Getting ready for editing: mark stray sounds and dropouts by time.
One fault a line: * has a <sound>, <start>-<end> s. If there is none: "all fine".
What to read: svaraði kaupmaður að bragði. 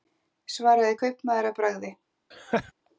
* has a laugh, 2.3-2.7 s